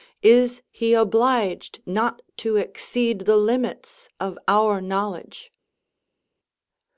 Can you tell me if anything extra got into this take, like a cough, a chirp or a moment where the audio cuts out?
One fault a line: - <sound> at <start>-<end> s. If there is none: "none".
none